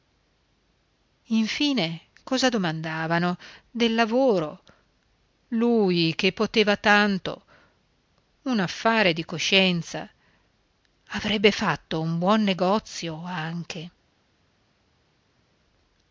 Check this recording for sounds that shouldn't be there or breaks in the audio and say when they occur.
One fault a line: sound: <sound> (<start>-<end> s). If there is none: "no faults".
no faults